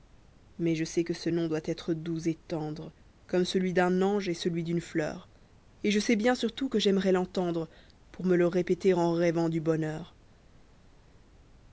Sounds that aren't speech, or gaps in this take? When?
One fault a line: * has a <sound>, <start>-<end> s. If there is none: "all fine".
all fine